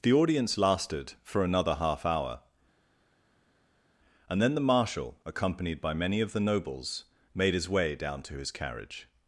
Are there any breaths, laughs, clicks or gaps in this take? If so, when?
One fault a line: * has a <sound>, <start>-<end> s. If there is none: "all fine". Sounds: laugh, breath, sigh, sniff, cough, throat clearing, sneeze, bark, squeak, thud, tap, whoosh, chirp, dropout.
all fine